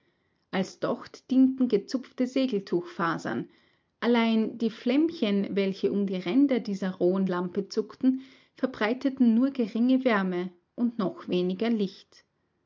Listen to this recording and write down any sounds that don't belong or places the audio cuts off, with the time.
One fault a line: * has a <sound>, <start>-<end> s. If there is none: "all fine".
all fine